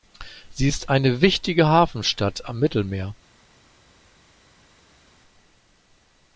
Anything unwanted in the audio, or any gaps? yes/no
no